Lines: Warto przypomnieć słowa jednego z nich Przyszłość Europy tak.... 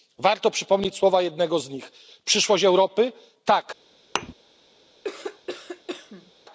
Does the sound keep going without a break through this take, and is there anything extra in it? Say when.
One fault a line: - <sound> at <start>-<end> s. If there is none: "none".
- thud at 4.2-4.3 s
- cough at 5.0-6.3 s